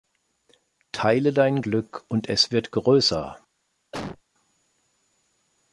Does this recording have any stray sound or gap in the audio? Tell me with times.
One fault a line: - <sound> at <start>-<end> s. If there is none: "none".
- cough at 3.9-4.2 s